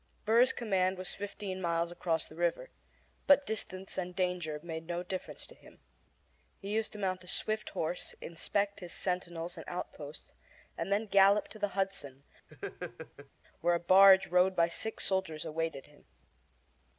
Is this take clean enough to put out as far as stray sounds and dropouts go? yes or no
no